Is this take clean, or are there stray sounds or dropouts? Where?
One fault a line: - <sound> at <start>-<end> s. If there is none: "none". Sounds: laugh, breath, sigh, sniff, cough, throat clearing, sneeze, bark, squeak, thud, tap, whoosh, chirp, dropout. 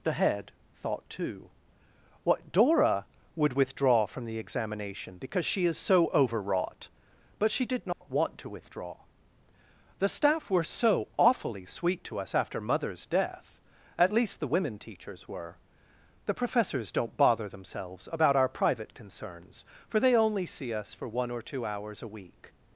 - dropout at 7.9-8.0 s